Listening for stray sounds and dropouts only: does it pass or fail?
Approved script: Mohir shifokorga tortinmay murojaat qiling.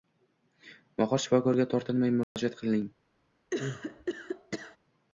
fail